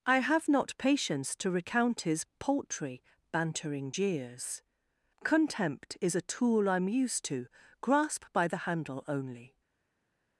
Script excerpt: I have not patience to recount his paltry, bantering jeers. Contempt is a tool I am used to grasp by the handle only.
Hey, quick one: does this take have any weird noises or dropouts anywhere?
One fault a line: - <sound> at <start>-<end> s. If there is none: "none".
none